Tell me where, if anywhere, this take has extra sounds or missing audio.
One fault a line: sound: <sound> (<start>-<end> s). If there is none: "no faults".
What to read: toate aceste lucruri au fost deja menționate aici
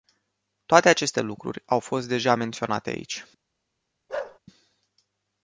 sound: bark (4.1-4.4 s)